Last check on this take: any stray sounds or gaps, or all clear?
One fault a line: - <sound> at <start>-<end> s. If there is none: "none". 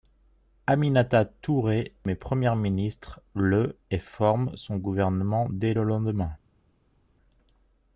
none